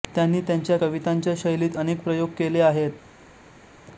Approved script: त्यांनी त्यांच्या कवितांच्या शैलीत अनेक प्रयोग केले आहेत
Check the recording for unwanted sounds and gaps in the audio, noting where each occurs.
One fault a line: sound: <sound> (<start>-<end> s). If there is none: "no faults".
no faults